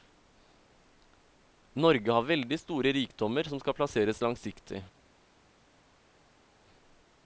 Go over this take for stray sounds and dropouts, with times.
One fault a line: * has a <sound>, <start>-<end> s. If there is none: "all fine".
all fine